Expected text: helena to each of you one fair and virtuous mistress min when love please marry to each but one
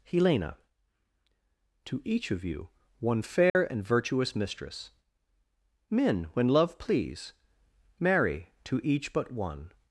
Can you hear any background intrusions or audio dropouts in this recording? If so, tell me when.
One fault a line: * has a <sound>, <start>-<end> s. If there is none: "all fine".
* has a dropout, 3.5-3.6 s